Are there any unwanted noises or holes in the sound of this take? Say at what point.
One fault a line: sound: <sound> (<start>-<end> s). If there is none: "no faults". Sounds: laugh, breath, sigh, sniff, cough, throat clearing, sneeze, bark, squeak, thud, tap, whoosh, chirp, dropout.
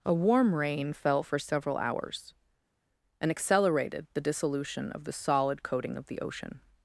no faults